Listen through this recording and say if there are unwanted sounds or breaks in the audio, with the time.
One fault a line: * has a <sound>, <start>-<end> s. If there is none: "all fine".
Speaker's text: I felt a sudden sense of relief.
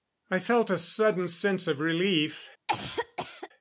* has a cough, 2.7-3.5 s